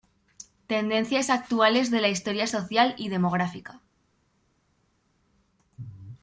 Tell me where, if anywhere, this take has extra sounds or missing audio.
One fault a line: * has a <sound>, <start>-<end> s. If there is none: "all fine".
all fine